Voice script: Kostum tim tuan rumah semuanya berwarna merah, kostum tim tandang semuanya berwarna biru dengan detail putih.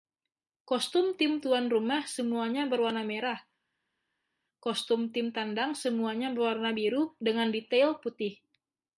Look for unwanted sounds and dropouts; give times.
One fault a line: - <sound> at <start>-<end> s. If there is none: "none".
none